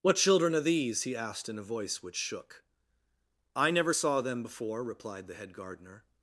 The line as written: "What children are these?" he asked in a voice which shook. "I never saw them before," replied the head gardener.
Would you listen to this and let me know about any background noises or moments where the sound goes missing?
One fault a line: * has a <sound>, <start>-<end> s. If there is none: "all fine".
all fine